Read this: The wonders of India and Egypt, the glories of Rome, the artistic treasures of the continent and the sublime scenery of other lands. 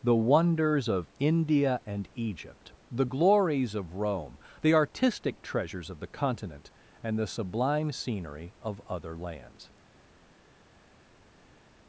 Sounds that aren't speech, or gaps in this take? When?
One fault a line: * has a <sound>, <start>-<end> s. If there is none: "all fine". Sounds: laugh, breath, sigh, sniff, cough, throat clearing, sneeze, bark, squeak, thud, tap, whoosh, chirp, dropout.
all fine